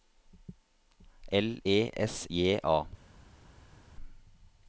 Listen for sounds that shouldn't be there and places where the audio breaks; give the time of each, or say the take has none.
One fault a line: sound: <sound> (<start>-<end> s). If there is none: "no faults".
no faults